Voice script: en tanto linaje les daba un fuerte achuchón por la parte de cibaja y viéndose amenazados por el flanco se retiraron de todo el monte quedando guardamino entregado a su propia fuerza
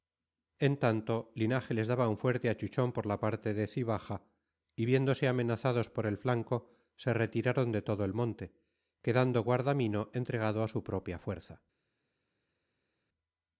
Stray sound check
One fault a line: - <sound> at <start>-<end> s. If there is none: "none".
none